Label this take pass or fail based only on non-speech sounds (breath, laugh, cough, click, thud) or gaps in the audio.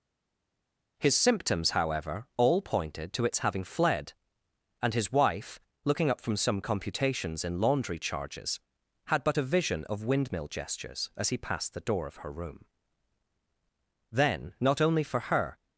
pass